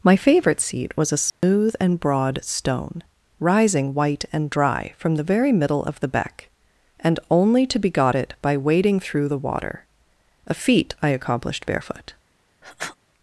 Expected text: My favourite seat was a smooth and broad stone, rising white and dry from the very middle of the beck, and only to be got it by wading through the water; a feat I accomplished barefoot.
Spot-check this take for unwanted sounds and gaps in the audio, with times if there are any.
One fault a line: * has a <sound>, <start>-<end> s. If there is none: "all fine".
* has a dropout, 1.3-1.4 s
* has a sniff, 12.6-13.0 s